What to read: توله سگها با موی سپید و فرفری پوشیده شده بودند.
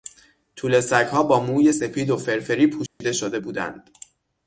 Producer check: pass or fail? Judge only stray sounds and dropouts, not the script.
fail